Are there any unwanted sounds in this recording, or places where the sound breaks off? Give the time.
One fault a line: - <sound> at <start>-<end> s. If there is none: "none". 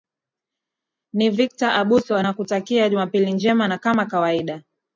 none